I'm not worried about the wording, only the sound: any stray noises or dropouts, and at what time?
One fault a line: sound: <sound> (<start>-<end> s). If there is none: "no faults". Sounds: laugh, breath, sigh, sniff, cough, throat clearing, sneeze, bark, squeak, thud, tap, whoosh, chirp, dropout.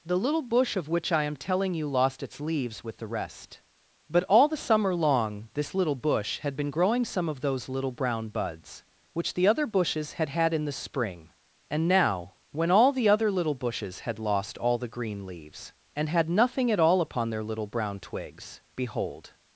no faults